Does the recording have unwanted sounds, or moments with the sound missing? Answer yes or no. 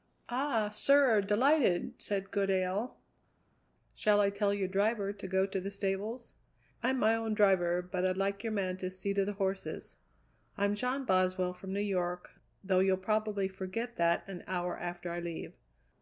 no